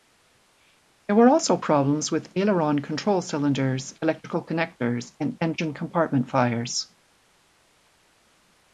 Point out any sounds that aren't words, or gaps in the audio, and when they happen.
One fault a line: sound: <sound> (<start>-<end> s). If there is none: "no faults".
no faults